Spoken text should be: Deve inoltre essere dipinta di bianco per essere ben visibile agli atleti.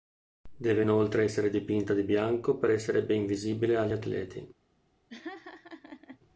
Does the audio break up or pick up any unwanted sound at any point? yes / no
yes